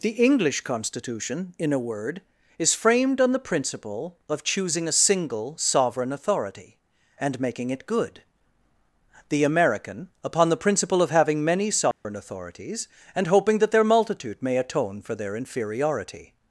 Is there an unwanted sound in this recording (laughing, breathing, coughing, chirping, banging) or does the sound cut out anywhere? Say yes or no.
yes